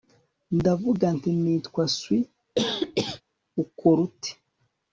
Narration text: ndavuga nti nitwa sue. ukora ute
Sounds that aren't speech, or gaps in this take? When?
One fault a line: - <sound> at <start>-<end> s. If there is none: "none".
- cough at 2.6-3.2 s